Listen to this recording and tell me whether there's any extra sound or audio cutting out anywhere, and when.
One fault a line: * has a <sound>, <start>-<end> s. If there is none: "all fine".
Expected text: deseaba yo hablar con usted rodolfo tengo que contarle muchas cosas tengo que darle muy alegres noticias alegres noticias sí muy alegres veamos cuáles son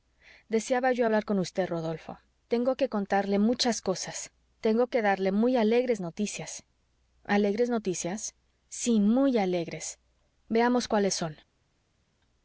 all fine